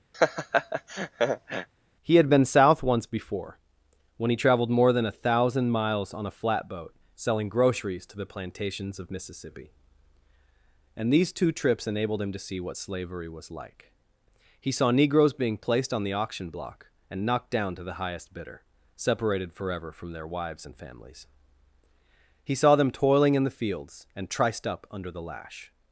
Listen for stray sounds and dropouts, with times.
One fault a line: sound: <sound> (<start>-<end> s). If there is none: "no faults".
sound: laugh (0.1-1.7 s)